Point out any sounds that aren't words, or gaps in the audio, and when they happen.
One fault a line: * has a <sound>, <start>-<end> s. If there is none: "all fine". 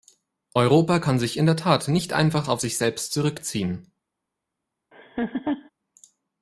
* has a laugh, 4.9-5.7 s